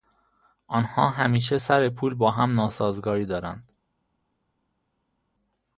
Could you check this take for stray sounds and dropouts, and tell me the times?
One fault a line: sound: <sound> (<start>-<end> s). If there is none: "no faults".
no faults